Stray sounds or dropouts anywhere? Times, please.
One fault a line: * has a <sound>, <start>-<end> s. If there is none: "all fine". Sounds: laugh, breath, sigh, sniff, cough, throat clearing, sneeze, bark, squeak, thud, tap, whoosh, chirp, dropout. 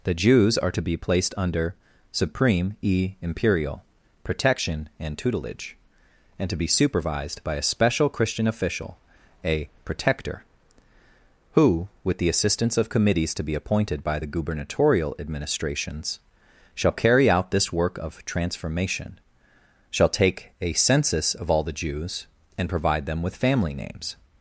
all fine